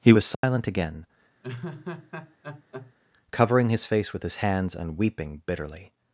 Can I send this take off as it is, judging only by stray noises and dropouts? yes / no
no